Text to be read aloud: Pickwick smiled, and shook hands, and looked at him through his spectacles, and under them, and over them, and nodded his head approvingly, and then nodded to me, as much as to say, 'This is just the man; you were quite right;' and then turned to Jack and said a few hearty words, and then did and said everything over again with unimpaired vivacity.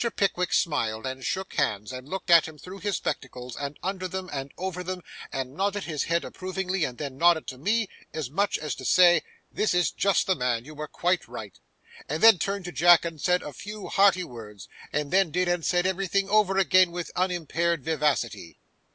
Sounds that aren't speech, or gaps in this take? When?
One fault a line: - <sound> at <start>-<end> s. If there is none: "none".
none